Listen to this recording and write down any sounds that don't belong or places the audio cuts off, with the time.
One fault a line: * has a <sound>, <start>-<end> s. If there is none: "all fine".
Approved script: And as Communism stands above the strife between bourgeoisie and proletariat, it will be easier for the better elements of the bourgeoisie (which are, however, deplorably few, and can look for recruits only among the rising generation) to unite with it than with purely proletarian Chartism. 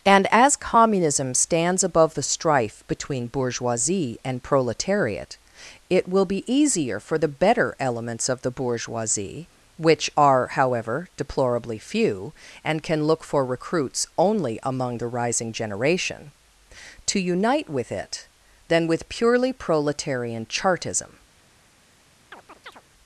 * has a chirp, 22.3-22.8 s